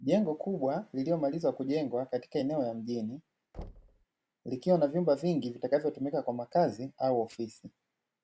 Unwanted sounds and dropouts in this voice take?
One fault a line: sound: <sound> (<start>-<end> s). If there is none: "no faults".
sound: thud (3.5-4.1 s)